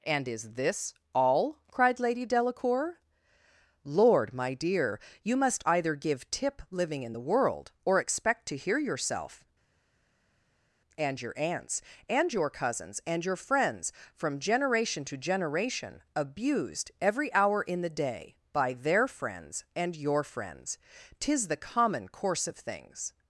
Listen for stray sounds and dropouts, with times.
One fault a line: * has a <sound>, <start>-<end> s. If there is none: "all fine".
all fine